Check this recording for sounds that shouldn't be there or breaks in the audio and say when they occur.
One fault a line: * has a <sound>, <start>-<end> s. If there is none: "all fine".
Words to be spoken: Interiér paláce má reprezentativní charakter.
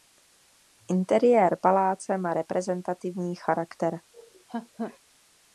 * has a laugh, 4.1-5.0 s